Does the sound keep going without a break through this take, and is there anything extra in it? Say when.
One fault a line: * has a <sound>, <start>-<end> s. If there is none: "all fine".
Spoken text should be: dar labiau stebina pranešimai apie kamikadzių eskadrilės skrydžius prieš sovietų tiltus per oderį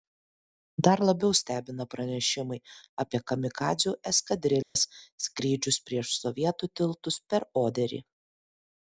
* has a dropout, 4.6-4.8 s